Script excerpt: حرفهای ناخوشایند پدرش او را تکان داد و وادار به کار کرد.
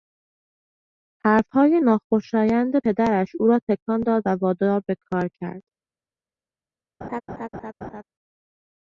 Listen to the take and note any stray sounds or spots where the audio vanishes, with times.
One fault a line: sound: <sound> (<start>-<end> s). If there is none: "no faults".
sound: laugh (7.0-8.0 s)